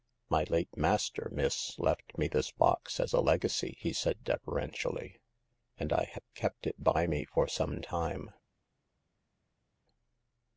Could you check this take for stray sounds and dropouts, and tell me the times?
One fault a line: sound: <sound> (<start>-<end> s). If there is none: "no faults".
no faults